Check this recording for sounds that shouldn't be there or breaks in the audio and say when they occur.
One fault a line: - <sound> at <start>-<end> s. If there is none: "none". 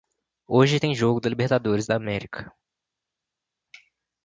none